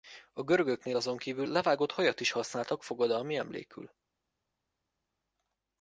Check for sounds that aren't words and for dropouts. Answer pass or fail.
pass